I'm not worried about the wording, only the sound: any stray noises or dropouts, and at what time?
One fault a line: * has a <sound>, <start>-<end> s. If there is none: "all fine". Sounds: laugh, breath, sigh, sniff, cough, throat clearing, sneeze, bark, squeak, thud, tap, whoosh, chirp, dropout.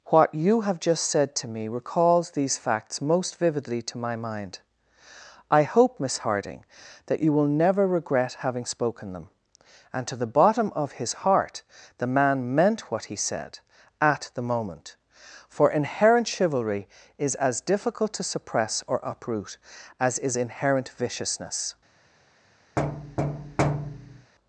* has a thud, 22.8-24.3 s